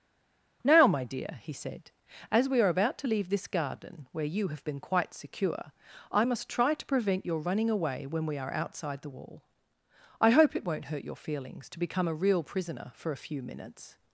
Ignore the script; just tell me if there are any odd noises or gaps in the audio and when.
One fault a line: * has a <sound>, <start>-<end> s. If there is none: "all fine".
all fine